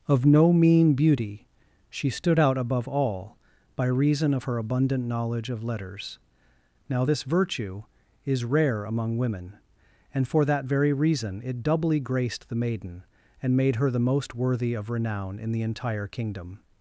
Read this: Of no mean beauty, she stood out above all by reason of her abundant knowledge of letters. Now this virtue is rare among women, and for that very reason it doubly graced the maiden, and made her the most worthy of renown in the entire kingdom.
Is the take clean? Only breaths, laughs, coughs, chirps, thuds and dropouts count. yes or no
yes